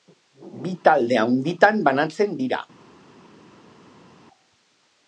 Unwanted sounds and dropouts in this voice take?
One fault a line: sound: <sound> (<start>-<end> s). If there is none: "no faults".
no faults